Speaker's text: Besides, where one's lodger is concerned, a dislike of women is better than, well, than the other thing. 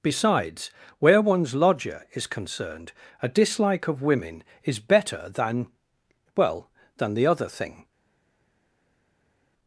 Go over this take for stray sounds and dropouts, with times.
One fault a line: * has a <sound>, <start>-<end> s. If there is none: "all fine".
all fine